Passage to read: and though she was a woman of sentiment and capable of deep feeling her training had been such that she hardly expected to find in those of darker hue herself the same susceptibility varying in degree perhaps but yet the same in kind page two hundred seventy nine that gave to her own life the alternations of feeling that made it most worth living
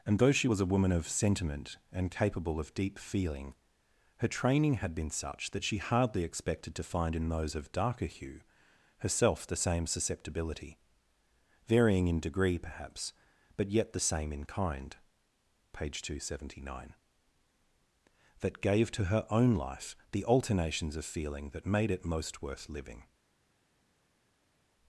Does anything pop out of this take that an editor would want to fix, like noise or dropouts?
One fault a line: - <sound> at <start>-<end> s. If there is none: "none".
none